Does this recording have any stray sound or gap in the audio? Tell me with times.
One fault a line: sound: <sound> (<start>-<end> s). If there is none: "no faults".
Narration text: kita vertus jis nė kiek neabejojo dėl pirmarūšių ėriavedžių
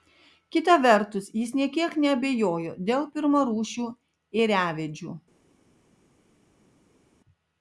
no faults